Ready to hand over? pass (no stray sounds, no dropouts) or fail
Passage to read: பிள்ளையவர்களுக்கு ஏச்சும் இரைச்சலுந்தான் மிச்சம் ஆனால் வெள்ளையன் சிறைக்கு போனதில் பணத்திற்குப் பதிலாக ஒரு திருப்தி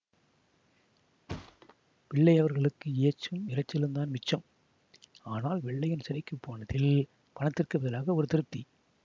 fail